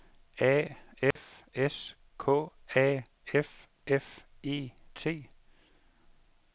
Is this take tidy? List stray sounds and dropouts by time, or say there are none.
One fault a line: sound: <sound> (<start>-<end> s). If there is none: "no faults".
sound: dropout (1.1-1.2 s)